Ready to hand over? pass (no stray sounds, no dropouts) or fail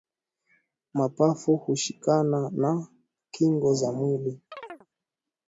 fail